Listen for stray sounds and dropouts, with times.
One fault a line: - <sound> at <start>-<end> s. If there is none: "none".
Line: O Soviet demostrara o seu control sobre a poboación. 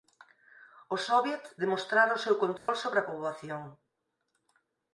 - dropout at 2.6-2.7 s